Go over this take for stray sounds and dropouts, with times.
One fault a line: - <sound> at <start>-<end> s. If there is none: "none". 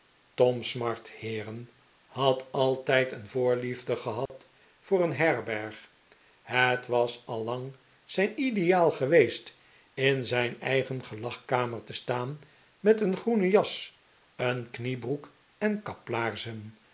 - dropout at 4.3-4.3 s